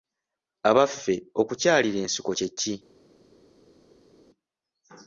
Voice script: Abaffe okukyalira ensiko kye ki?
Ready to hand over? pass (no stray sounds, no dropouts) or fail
pass